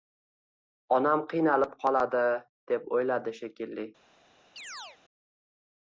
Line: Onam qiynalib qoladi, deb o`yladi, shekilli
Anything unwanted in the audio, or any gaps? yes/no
yes